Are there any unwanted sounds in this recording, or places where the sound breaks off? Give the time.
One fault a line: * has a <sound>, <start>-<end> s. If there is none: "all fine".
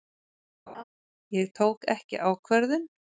* has a laugh, 0.7-0.8 s